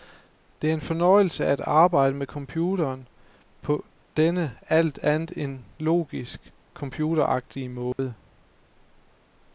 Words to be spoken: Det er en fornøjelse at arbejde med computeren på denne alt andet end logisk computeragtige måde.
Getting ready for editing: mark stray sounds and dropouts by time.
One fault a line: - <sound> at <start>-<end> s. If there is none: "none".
- dropout at 7.9-8.0 s